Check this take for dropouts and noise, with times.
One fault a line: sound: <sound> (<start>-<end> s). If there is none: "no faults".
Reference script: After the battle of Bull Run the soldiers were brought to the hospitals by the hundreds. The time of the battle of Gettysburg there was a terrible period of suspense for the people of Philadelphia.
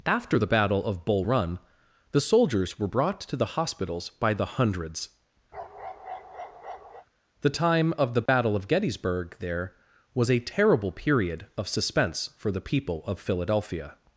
sound: bark (5.5-7.1 s)
sound: dropout (8.3-8.3 s)